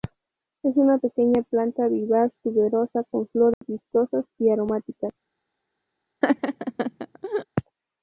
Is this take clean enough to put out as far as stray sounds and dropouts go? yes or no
no